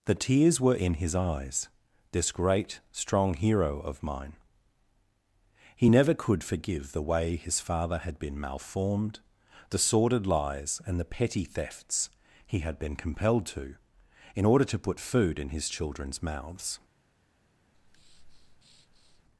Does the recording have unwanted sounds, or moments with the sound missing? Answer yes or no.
yes